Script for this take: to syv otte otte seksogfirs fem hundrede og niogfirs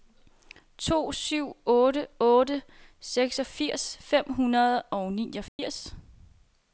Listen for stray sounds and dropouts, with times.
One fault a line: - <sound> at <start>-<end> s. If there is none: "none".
- dropout at 5.5-5.6 s